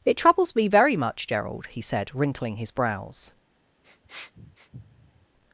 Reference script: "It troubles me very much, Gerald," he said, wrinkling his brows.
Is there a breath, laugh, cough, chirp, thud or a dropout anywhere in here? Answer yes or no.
yes